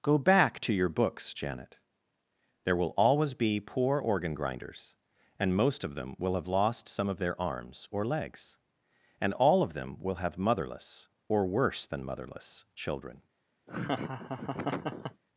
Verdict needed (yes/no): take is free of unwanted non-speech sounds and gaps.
no